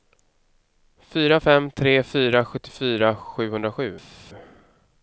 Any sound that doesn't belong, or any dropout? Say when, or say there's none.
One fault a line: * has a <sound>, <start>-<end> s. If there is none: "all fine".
all fine